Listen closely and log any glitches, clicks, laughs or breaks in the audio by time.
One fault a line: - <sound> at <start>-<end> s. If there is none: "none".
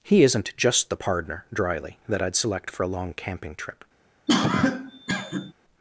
- cough at 4.3-5.5 s